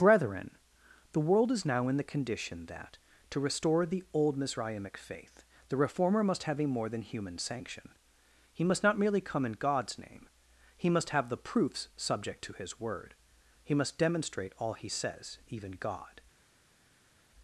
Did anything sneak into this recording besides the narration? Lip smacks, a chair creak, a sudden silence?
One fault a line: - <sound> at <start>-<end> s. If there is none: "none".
none